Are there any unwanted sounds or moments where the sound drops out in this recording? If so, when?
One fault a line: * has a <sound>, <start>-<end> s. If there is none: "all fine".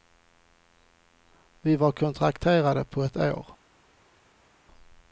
all fine